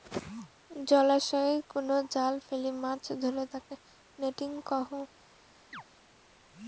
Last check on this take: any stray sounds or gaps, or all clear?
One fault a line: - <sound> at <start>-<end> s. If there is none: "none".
- chirp at 5.7-5.8 s